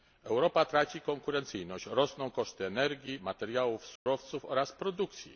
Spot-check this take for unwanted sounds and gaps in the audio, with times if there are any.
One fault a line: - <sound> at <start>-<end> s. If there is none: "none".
- dropout at 4.0-4.1 s